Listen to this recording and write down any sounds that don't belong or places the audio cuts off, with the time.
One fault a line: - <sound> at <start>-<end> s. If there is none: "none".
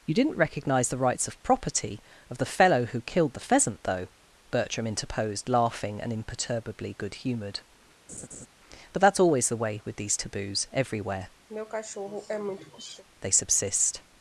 - laugh at 8.1-8.5 s
- throat clearing at 11.5-13.0 s